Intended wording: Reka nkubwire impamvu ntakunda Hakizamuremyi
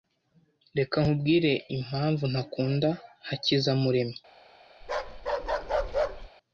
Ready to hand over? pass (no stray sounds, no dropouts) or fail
fail